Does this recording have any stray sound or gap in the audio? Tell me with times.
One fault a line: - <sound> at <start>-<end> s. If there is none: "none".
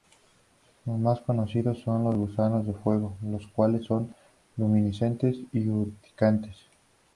none